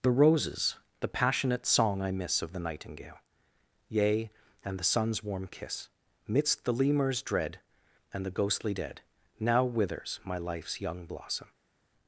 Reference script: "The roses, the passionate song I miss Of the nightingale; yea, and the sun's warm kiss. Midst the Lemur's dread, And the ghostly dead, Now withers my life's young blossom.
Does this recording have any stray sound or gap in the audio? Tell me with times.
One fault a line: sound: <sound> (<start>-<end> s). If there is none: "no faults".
no faults